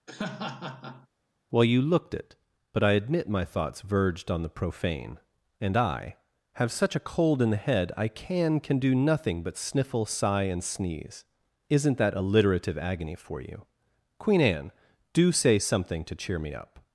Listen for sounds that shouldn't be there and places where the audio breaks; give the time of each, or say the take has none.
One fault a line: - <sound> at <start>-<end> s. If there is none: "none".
- laugh at 0.1-1.1 s